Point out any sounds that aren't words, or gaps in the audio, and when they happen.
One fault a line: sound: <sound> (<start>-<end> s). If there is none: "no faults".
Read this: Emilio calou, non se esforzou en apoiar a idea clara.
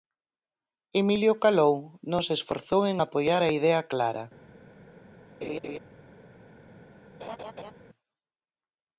sound: laugh (5.4-5.8 s)
sound: laugh (7.2-7.7 s)